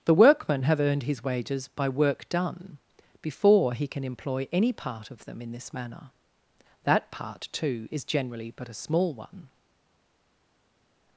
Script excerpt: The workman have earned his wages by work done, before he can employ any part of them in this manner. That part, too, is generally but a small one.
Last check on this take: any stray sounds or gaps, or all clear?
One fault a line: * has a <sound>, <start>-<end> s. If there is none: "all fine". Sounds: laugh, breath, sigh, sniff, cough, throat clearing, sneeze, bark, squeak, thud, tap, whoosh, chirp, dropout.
all fine